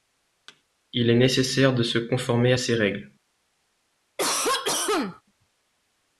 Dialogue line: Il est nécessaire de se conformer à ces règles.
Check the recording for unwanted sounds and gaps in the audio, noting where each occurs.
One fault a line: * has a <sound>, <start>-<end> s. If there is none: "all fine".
* has a thud, 0.5-0.6 s
* has a cough, 4.2-5.2 s